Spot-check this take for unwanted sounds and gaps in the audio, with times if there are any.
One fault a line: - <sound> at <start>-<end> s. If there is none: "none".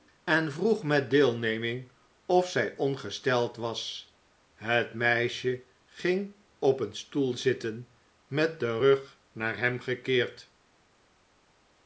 none